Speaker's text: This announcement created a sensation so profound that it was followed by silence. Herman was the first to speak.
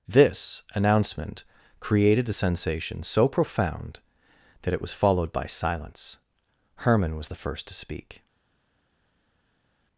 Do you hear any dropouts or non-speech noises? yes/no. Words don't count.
no